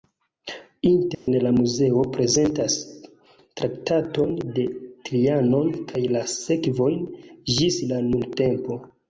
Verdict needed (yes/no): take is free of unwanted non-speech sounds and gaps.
no